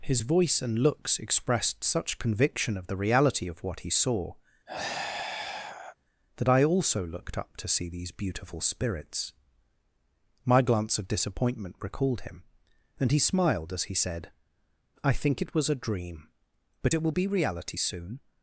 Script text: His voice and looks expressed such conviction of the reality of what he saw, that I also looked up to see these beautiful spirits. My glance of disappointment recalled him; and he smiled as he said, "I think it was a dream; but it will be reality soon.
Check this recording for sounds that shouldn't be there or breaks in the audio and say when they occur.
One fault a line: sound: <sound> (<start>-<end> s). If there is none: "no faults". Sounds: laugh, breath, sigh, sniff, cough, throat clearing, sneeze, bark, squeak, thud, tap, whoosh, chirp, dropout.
sound: sigh (4.7-6.0 s)